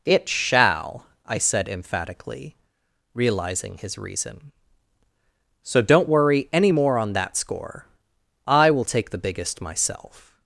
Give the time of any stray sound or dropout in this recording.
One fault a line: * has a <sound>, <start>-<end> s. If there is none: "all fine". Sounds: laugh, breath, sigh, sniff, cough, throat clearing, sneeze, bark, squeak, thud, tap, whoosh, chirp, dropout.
all fine